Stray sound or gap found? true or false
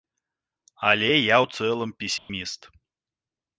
true